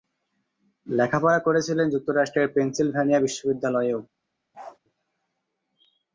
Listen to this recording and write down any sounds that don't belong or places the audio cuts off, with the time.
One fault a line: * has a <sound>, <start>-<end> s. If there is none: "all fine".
* has a bark, 4.5-4.8 s